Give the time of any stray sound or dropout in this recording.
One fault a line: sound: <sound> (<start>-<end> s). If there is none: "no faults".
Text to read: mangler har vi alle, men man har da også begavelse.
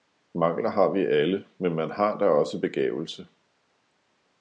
no faults